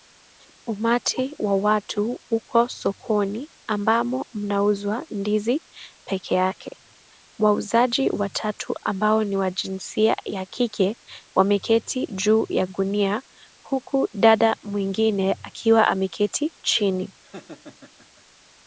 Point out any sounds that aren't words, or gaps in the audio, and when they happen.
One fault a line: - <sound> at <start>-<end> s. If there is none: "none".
- laugh at 17.2-18.2 s